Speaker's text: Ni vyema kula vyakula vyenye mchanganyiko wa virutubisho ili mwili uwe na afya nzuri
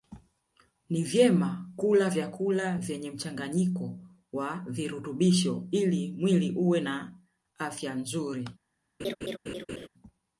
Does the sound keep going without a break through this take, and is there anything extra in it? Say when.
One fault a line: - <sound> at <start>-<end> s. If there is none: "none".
- laugh at 9.0-9.9 s